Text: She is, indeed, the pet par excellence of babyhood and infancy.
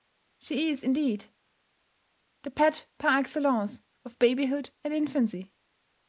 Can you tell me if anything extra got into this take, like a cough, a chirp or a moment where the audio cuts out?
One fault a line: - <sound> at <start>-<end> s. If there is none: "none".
none